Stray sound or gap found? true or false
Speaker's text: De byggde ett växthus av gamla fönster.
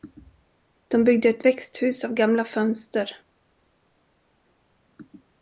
false